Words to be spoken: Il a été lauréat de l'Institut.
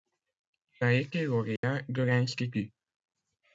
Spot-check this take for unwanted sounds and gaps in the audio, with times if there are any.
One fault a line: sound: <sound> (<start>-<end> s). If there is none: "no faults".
sound: dropout (1.6-1.6 s)